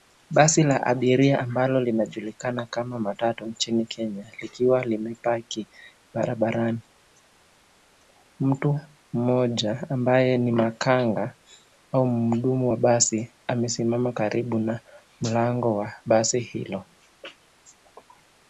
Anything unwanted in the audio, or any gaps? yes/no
no